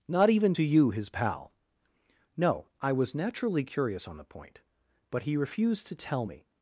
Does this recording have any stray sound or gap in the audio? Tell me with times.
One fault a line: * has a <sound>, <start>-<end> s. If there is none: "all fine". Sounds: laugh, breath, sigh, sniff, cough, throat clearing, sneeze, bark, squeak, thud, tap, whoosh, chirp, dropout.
all fine